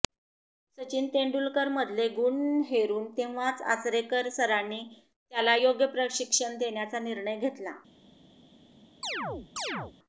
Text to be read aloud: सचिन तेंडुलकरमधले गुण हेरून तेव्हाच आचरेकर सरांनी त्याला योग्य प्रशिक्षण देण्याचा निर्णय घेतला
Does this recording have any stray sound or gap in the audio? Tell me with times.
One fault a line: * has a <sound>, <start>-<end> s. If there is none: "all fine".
* has a chirp, 9.0-9.9 s